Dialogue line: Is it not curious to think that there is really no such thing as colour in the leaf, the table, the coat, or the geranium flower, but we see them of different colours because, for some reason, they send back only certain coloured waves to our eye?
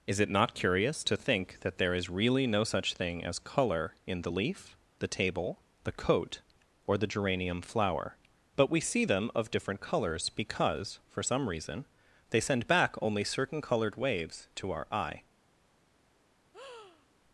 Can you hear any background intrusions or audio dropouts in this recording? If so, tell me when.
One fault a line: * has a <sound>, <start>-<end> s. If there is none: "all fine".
* has a breath, 16.5-17.1 s